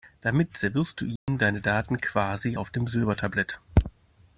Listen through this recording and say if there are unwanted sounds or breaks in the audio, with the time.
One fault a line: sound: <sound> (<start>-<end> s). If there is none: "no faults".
sound: dropout (1.2-1.3 s)